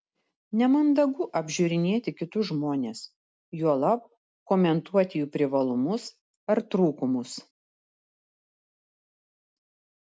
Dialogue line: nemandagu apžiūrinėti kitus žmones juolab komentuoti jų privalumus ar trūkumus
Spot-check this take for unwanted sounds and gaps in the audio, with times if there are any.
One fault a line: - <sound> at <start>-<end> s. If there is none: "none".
none